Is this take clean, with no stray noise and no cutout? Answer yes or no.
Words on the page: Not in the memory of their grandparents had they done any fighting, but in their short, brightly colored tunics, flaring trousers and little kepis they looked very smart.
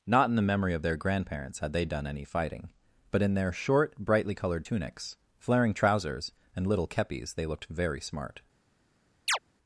no